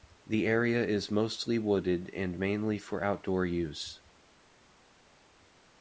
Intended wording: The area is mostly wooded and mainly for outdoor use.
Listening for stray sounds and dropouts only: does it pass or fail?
pass